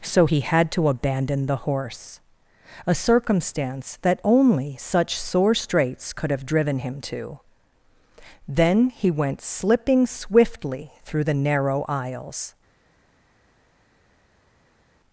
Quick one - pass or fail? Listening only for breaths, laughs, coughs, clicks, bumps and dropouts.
pass